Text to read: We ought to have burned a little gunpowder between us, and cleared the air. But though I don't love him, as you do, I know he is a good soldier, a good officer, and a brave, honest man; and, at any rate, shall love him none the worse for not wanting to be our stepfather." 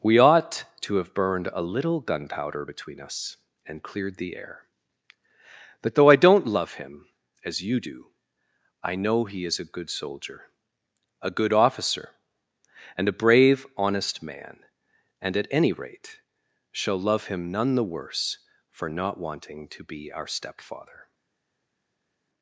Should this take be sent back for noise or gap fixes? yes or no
no